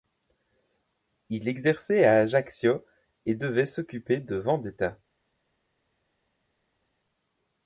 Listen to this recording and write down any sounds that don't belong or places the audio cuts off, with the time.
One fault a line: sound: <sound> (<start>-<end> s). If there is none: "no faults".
no faults